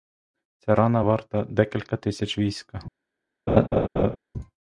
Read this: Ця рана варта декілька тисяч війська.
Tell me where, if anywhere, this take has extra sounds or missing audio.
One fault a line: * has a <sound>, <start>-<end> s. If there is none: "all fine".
* has a laugh, 3.5-4.2 s